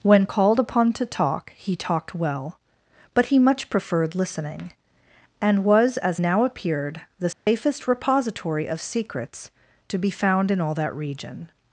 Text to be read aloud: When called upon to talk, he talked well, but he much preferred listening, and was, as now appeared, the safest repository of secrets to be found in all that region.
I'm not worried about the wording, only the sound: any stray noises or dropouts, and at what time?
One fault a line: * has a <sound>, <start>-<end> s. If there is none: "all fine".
* has a dropout, 7.3-7.5 s